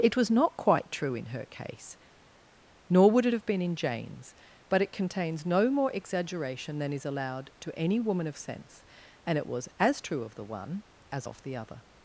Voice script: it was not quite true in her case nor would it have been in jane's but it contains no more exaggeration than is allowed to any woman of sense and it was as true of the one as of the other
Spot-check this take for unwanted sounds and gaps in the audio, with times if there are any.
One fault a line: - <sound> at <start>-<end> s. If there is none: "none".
none